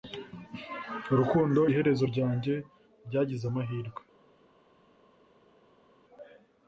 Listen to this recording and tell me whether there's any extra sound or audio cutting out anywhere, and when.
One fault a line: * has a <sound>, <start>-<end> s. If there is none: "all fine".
all fine